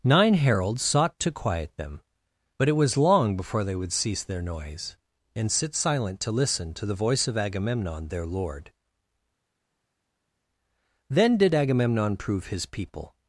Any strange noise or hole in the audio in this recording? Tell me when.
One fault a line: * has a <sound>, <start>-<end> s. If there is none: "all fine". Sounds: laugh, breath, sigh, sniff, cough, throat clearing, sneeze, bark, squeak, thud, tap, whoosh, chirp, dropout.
all fine